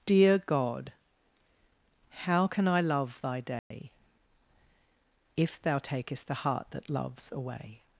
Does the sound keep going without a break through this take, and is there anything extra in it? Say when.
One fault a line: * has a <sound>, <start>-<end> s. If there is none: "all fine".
* has a dropout, 3.6-3.7 s